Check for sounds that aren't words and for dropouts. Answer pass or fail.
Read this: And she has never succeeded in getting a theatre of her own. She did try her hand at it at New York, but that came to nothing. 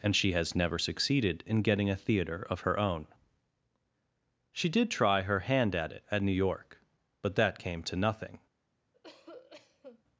fail